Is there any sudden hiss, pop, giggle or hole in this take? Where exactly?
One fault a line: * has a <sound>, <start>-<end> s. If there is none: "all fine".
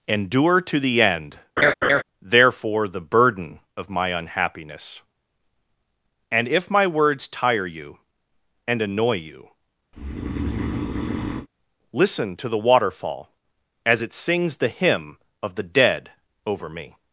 * has a laugh, 1.6-2.0 s
* has a breath, 9.9-11.5 s